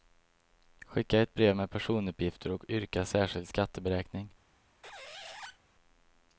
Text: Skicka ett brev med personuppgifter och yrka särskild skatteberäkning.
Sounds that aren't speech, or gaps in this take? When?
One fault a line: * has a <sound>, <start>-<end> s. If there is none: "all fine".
* has a squeak, 4.8-5.6 s